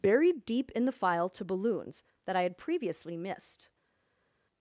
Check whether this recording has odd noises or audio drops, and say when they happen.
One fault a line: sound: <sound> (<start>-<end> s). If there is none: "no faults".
no faults